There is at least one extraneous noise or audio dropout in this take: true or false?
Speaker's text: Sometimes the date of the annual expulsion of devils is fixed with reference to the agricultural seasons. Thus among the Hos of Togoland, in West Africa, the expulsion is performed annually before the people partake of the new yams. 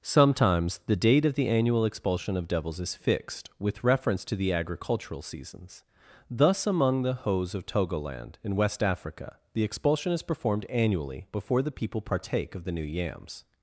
false